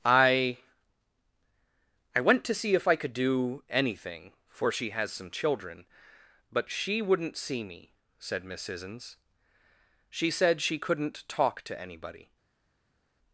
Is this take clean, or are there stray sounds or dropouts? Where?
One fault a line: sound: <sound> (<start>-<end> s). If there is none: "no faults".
no faults